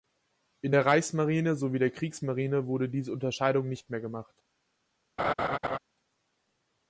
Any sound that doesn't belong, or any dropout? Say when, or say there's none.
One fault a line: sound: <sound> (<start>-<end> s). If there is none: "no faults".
sound: laugh (5.2-5.8 s)